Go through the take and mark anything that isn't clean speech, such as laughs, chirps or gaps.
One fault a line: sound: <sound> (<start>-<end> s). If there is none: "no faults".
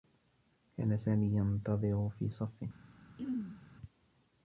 sound: throat clearing (3.2-3.6 s)